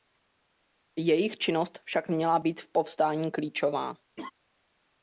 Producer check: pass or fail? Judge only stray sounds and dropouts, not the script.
fail